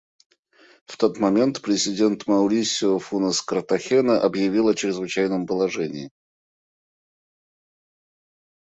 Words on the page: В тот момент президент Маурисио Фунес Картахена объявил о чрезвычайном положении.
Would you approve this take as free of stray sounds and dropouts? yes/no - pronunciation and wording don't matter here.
yes